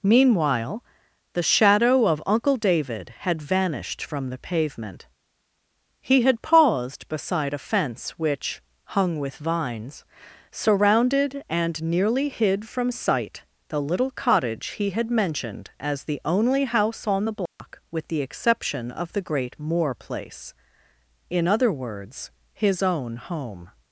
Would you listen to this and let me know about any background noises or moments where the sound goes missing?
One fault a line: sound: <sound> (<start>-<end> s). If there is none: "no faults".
sound: dropout (17.5-17.6 s)